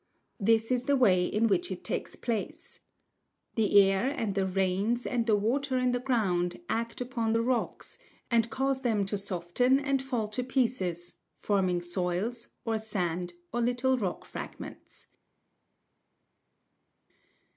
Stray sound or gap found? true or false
false